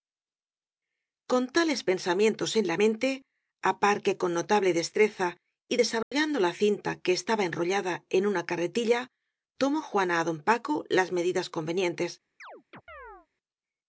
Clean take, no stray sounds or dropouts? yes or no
no